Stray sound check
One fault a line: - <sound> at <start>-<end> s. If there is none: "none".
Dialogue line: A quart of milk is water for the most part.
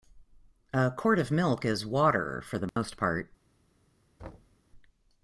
- dropout at 2.7-2.8 s
- thud at 4.2-4.6 s